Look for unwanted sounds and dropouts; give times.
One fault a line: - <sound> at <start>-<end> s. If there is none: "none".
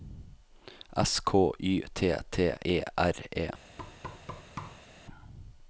- thud at 3.8-4.9 s